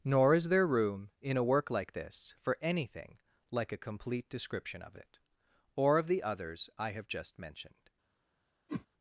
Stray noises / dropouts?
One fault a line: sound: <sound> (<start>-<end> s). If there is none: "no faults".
sound: whoosh (8.7-8.9 s)